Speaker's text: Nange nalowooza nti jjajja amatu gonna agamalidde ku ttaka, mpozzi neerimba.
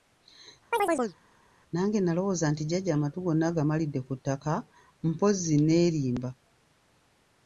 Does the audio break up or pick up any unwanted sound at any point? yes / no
yes